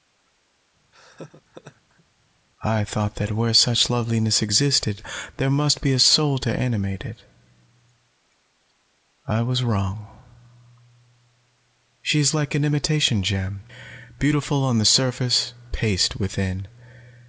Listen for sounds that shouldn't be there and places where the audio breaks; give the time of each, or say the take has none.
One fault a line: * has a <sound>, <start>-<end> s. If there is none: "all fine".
* has a laugh, 0.9-2.0 s